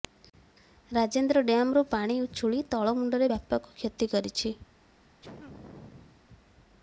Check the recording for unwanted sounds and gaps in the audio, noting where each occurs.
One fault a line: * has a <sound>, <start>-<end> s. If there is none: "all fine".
* has a sneeze, 5.2-6.3 s